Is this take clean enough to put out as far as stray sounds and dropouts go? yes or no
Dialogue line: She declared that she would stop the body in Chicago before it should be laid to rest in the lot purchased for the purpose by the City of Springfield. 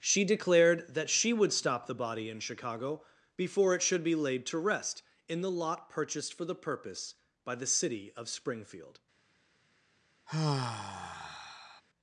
no